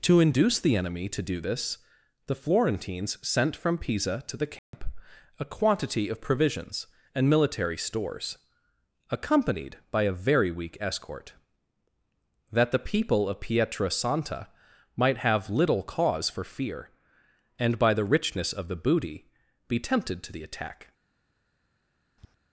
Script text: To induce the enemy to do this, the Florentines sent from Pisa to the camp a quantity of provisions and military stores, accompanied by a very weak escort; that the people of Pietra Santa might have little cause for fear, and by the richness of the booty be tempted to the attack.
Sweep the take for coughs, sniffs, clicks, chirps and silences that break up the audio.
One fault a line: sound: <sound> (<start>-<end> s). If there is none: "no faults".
sound: dropout (4.6-4.7 s)
sound: tap (22.2-22.4 s)